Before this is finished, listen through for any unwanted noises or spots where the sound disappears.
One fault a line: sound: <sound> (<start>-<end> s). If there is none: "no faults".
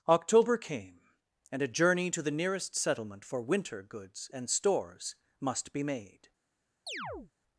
sound: chirp (6.9-7.3 s)